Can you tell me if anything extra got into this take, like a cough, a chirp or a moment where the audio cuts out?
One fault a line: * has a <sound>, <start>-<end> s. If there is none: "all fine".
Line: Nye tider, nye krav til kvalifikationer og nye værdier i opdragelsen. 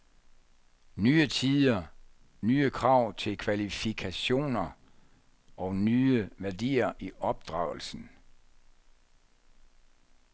all fine